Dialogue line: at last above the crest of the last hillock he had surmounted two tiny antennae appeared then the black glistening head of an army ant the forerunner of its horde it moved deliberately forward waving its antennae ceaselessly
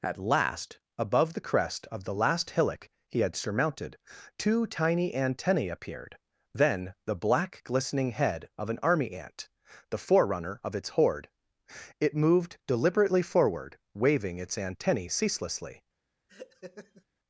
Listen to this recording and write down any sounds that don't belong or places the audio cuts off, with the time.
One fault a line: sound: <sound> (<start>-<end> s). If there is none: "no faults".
sound: laugh (16.3-17.0 s)